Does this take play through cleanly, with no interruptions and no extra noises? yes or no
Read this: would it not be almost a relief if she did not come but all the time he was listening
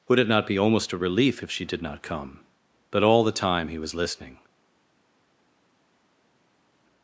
yes